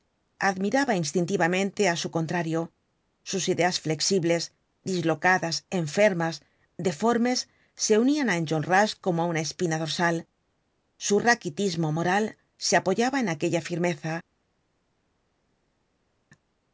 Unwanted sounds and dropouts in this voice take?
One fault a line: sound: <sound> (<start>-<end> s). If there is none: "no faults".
no faults